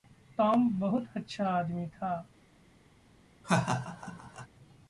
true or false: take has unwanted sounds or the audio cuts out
true